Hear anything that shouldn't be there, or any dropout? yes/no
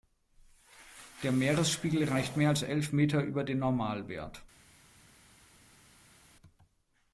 no